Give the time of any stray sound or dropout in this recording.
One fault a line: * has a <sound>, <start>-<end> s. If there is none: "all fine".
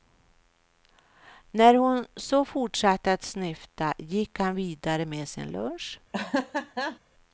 * has a laugh, 6.1-7.0 s